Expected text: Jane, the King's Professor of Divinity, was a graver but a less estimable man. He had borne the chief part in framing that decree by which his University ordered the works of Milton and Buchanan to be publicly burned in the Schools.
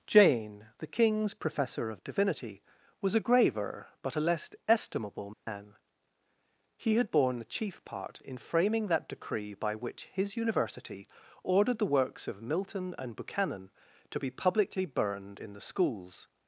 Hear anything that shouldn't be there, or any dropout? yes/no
yes